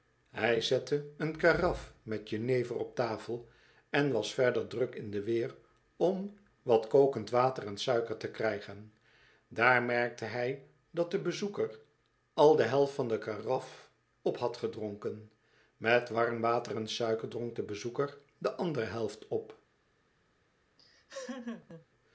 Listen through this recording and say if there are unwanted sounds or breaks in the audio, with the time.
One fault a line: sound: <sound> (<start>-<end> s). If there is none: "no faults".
sound: laugh (20.8-21.9 s)